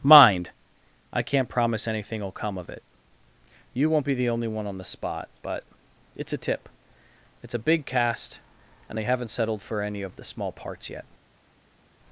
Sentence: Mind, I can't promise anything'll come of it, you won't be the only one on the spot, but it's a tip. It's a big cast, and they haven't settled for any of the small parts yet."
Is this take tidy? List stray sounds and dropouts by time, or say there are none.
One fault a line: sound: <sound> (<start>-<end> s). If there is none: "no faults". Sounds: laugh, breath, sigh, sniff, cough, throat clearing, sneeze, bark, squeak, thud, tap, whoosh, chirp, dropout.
no faults